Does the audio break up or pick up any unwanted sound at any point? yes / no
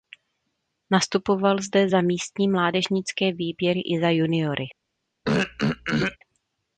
yes